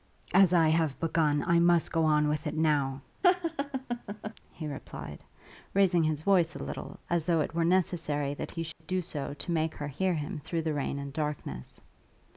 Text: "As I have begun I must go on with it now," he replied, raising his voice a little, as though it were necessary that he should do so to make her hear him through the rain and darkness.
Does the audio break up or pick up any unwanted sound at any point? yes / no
yes